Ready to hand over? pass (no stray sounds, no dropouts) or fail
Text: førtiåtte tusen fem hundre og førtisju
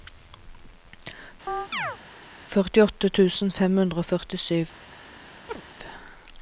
fail